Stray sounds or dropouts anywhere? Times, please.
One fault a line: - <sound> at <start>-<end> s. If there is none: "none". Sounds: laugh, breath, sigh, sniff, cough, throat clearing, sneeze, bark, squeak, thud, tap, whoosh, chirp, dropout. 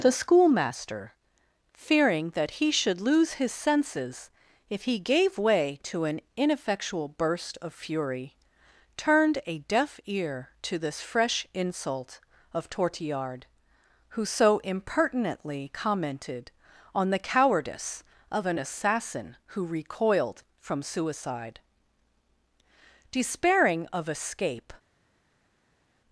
none